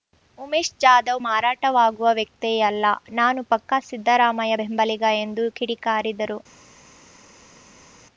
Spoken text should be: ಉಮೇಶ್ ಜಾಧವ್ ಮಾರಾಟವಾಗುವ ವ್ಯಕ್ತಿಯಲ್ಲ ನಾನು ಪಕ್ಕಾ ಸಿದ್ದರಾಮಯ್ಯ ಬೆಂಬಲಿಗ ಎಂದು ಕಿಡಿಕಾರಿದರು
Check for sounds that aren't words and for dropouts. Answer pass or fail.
pass